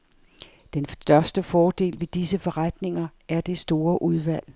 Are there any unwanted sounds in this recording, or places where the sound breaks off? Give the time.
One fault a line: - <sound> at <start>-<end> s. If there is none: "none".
none